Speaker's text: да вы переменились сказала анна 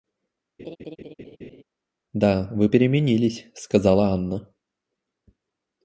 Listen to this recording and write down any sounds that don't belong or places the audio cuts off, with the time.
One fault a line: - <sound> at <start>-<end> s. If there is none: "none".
- laugh at 0.6-1.6 s